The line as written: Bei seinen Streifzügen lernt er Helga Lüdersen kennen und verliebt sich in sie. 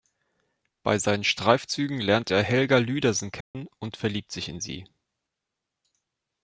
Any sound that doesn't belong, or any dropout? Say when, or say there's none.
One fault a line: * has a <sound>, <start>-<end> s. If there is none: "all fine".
* has a dropout, 3.4-3.5 s